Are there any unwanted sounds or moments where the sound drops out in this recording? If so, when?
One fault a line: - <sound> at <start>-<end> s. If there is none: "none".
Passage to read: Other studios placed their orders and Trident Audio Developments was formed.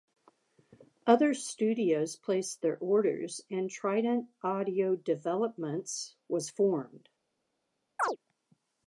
- chirp at 8.0-8.2 s